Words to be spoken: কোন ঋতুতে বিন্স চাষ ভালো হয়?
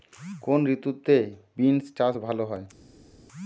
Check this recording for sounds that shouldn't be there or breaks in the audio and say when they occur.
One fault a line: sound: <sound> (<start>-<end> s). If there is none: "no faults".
no faults